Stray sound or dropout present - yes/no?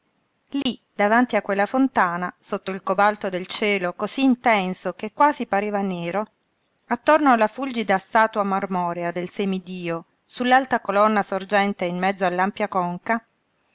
yes